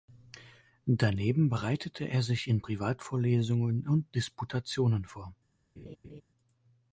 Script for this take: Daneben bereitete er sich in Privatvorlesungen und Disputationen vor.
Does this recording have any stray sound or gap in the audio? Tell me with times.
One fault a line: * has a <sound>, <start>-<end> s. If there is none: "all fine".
* has a laugh, 5.8-6.2 s